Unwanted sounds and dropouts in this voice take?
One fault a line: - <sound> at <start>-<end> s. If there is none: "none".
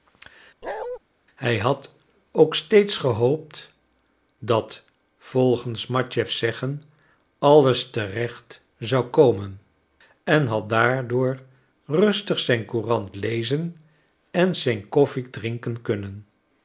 - bark at 0.6-1.0 s